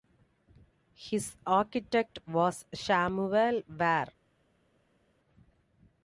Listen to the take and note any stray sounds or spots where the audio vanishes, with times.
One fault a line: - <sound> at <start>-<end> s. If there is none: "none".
none